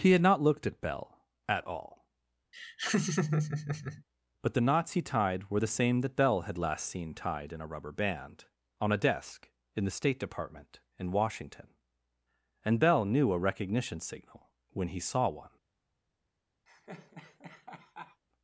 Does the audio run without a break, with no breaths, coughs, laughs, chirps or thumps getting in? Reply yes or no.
no